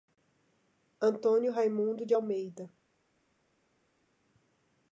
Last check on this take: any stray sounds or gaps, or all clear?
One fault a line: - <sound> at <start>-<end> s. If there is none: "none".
none